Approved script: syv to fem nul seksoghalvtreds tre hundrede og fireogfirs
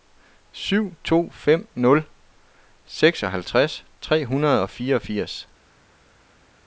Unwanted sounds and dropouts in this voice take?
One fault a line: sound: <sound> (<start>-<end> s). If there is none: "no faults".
no faults